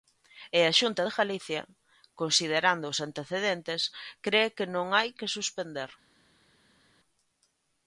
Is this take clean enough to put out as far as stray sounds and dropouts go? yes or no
yes